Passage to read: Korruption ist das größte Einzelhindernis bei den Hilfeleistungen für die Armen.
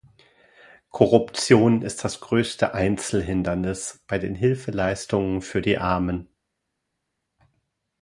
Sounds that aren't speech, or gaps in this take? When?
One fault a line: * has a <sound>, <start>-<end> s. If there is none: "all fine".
all fine